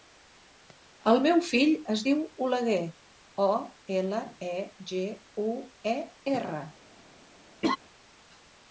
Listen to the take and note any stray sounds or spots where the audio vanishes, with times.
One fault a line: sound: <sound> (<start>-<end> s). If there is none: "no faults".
sound: laugh (7.6-7.8 s)